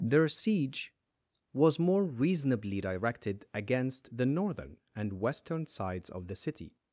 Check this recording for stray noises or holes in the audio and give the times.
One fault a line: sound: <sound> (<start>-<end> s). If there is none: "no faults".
no faults